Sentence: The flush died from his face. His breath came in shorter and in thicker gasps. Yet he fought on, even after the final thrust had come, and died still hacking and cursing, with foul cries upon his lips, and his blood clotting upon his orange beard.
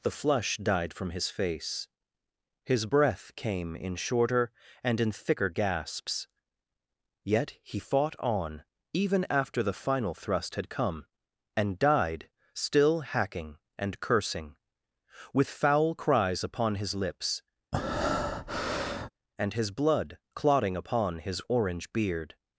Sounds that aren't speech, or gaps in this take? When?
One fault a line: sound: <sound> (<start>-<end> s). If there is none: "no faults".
sound: breath (17.7-19.1 s)